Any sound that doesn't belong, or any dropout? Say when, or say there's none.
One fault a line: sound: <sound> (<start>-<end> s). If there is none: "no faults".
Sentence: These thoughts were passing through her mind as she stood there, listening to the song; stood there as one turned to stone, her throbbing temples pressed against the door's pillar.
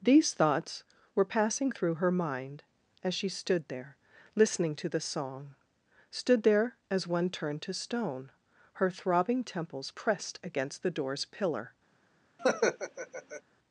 sound: laugh (12.4-13.4 s)